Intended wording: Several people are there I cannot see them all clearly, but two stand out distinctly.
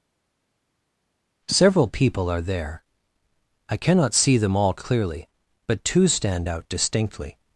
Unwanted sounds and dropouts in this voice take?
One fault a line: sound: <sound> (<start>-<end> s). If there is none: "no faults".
no faults